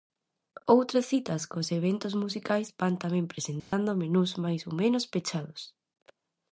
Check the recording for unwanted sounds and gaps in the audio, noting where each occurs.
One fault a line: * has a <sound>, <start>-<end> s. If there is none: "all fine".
* has a dropout, 3.6-3.7 s